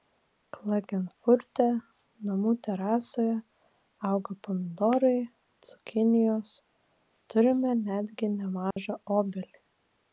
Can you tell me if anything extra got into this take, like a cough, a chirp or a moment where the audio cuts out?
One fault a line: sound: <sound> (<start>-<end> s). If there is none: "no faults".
sound: dropout (8.7-8.8 s)